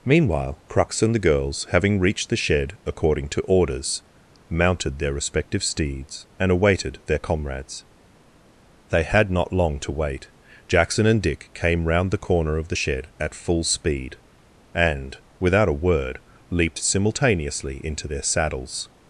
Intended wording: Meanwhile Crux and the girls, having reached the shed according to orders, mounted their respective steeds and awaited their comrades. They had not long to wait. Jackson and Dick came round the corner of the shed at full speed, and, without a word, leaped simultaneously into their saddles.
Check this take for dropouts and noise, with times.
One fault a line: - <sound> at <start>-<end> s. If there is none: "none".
none